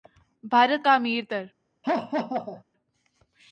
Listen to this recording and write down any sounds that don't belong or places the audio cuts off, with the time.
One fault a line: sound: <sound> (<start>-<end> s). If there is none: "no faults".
sound: laugh (1.8-2.6 s)